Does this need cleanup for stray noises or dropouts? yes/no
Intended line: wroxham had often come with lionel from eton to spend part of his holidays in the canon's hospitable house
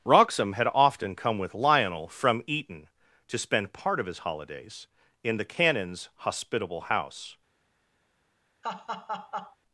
yes